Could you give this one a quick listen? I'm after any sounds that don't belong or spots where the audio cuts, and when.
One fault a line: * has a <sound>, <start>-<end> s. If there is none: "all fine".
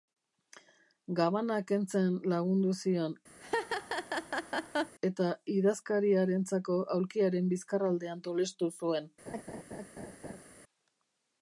* has a laugh, 3.4-4.9 s
* has a laugh, 9.3-10.4 s